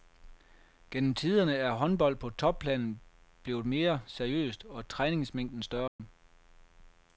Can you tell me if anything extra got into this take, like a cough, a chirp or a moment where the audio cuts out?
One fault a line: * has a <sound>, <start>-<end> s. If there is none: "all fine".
* has a dropout, 5.9-6.0 s